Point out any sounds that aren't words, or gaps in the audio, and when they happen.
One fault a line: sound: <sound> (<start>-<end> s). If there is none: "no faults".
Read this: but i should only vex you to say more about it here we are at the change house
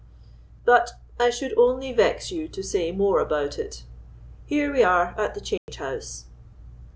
sound: dropout (5.6-5.7 s)